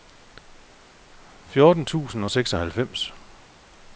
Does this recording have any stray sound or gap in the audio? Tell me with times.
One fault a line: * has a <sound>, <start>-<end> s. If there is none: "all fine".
all fine